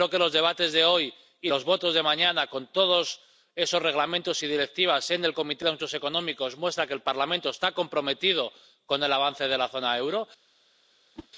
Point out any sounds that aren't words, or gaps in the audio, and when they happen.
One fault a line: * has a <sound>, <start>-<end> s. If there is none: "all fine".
* has a whoosh, 11.2-11.3 s